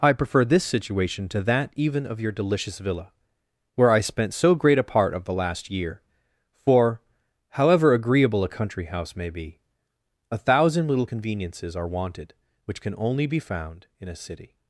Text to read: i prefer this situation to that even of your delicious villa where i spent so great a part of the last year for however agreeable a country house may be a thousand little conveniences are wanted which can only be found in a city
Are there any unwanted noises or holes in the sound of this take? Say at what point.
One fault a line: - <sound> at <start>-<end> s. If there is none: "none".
none